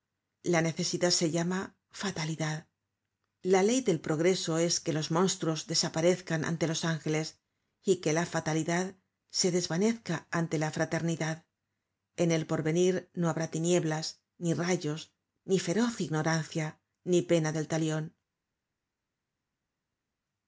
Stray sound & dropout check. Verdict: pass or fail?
pass